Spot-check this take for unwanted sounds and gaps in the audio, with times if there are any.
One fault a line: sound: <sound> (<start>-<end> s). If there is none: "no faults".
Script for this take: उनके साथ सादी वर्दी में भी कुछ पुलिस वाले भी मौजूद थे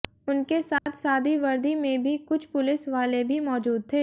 sound: dropout (0.8-0.9 s)